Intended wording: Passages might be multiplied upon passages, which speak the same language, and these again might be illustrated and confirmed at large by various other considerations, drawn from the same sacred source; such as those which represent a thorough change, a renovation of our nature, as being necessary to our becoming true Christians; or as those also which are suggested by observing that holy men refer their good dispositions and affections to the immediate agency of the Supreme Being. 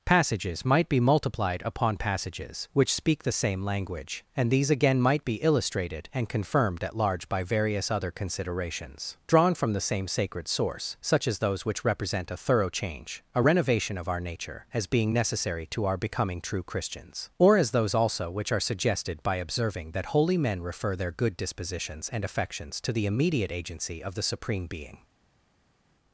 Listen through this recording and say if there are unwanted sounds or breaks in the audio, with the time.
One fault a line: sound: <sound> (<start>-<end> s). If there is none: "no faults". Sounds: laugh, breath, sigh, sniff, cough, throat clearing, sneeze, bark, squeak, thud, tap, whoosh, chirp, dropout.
no faults